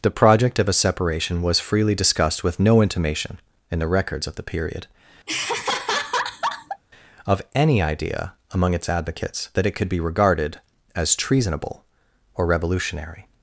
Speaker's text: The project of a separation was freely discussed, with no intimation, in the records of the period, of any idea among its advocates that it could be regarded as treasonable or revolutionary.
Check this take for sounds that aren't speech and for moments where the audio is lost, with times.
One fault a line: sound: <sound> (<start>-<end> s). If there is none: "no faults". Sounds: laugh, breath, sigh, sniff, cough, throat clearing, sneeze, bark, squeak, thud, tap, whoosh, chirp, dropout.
sound: laugh (5.3-6.8 s)